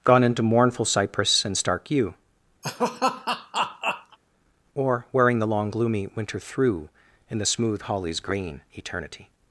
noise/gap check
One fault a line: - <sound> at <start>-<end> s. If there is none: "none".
- laugh at 2.6-4.2 s